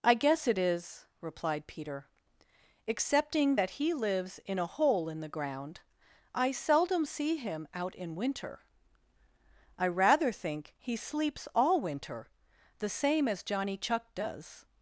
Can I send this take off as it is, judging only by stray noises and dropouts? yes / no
yes